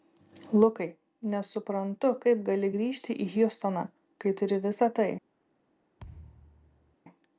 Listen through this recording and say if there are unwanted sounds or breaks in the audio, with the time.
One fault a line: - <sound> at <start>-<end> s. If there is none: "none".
- thud at 6.0-7.0 s